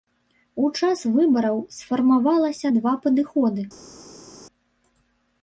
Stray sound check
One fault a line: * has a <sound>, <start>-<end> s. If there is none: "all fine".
all fine